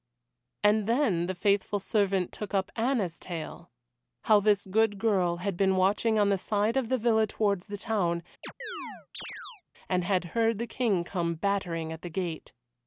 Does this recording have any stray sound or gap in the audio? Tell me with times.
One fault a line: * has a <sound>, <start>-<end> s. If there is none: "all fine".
* has a chirp, 8.4-9.6 s